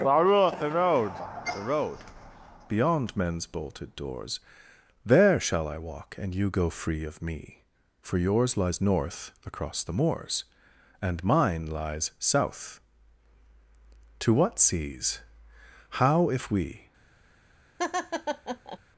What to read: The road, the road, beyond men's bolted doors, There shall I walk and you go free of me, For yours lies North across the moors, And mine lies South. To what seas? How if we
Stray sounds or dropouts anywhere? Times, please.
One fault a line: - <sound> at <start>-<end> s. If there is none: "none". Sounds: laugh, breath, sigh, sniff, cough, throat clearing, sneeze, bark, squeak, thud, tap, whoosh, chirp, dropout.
- laugh at 17.8-18.8 s